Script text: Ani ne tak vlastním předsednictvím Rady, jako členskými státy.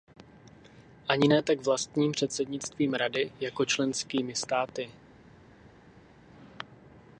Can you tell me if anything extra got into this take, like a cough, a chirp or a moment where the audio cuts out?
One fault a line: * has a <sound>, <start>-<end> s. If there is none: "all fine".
all fine